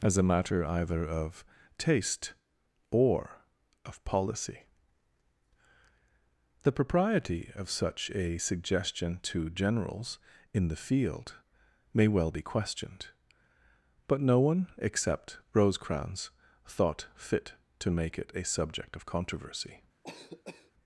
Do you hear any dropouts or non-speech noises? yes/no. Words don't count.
yes